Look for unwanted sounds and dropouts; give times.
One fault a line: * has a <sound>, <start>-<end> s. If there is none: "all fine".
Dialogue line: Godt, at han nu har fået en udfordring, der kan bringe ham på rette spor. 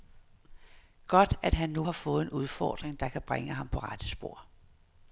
all fine